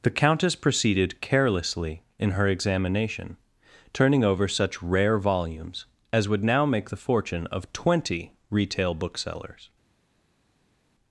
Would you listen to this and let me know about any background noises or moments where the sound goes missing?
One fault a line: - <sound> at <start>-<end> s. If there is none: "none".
none